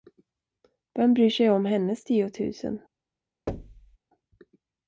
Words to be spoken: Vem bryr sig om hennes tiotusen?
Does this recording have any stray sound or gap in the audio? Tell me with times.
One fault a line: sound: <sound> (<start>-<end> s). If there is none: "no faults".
sound: thud (3.5-4.0 s)